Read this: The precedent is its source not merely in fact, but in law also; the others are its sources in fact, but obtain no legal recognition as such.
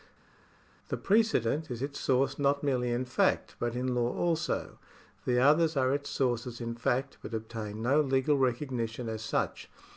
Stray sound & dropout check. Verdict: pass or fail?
pass